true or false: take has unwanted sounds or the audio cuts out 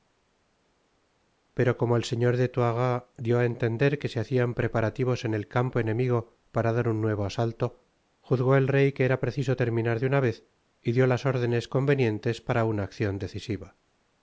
false